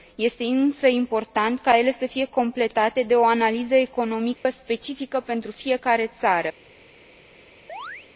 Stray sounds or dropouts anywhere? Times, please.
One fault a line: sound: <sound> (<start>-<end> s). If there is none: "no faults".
sound: dropout (4.4-4.5 s)
sound: chirp (7.7-8.1 s)